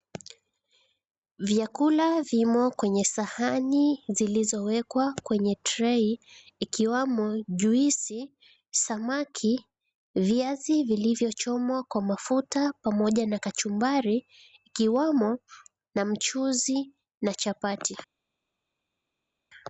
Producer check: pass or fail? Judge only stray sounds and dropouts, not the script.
pass